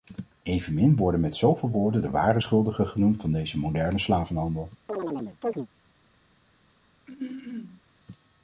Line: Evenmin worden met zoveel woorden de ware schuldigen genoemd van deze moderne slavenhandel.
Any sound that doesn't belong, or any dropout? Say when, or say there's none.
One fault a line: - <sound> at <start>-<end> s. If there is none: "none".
- chirp at 4.9-5.7 s
- throat clearing at 7.1-7.8 s